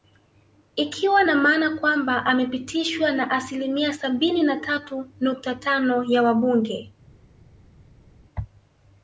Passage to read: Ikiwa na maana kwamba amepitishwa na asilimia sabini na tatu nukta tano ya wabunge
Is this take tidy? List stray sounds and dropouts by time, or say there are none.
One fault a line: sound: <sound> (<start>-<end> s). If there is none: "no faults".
no faults